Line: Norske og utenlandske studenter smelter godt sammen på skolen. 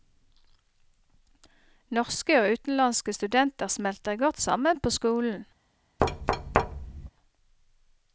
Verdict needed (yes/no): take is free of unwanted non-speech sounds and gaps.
no